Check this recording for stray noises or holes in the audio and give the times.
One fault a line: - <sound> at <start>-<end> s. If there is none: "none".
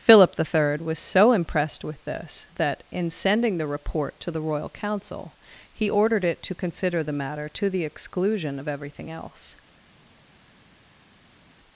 none